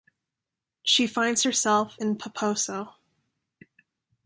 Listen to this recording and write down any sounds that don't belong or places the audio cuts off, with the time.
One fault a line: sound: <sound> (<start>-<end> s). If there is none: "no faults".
no faults